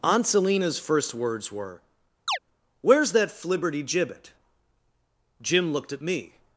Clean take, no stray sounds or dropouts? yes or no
no